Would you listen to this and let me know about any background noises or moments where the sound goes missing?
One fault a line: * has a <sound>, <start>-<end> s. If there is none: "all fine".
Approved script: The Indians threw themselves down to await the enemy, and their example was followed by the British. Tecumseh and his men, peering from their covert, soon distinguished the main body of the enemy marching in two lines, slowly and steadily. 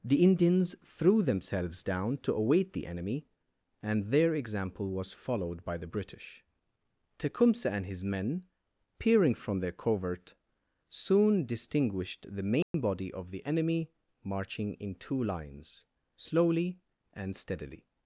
* has a dropout, 12.6-12.7 s